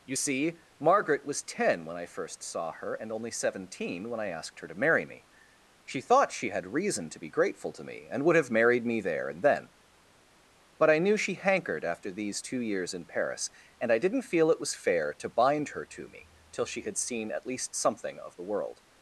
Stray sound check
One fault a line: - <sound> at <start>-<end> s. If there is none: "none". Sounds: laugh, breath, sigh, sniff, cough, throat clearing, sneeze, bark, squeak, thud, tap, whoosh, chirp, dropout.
none